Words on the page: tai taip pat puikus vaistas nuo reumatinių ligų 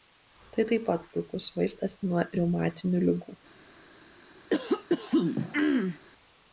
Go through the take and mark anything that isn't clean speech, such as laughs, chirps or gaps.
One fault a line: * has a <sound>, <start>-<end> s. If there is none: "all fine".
* has a throat clearing, 4.5-6.0 s